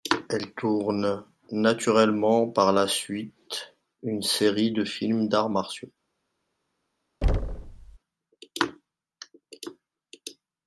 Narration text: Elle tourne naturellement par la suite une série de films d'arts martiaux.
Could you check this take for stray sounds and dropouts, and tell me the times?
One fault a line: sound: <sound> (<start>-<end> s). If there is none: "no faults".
sound: thud (7.2-8.0 s)